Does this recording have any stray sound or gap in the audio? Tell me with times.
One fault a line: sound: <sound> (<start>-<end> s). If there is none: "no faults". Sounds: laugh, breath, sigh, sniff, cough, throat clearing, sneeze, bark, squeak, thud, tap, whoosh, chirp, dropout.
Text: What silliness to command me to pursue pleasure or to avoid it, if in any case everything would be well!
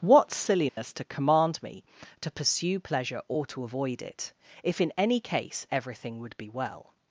sound: dropout (0.7-0.8 s)